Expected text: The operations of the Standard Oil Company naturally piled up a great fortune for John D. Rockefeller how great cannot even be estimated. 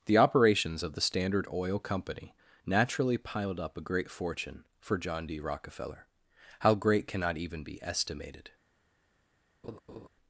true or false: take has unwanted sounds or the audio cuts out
true